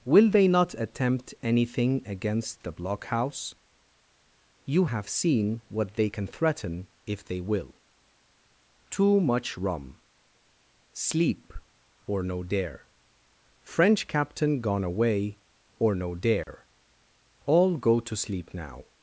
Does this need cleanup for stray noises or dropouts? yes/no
yes